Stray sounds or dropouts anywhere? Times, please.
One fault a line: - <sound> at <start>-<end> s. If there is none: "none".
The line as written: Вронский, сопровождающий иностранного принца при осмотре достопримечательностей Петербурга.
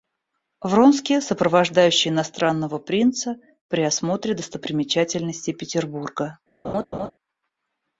- laugh at 6.6-7.1 s